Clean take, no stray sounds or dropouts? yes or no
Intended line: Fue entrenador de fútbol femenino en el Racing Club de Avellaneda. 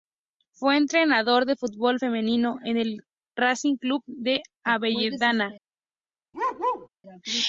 no